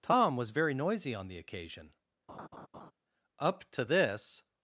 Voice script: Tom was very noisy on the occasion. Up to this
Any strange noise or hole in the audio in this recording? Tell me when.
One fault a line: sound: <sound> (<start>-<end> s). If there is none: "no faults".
sound: laugh (2.3-2.9 s)